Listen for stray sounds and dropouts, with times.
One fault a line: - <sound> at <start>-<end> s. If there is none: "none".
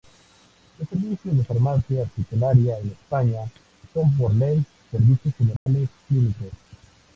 - dropout at 5.6-5.7 s